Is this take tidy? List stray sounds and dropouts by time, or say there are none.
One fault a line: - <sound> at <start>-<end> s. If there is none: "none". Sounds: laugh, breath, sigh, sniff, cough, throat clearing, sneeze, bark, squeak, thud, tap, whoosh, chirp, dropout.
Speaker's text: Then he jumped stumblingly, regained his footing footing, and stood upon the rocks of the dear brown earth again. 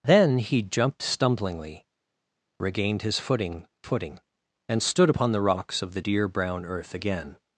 none